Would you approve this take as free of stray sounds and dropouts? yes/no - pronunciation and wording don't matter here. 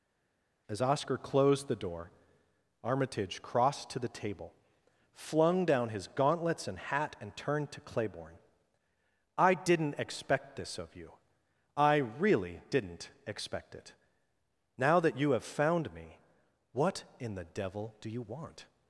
yes